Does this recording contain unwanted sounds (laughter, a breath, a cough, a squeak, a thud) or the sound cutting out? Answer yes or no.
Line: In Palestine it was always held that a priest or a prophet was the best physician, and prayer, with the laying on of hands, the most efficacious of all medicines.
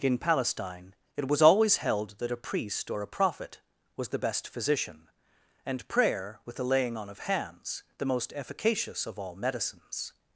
no